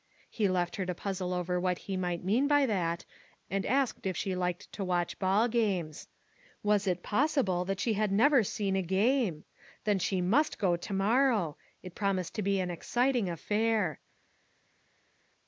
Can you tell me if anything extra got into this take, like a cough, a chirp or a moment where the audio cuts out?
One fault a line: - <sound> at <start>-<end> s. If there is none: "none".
none